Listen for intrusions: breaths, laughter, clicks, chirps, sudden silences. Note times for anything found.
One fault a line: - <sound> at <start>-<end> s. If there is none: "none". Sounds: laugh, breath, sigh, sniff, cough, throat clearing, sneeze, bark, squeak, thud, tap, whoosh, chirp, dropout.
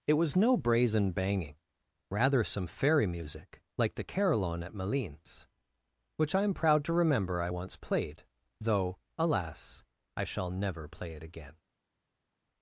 none